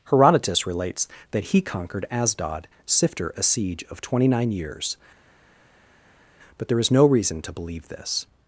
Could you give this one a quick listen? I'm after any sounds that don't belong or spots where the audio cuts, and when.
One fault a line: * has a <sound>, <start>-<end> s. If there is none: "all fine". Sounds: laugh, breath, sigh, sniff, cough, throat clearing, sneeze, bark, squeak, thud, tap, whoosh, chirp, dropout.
all fine